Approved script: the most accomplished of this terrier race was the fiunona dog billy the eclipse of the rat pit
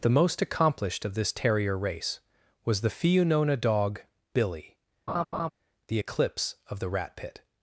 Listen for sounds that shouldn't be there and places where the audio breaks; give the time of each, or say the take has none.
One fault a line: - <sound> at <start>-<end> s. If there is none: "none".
- laugh at 5.1-5.5 s